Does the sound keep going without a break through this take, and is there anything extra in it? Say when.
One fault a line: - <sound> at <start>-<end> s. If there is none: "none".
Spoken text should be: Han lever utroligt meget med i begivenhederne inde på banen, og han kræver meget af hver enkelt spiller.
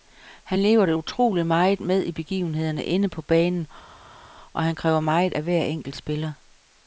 none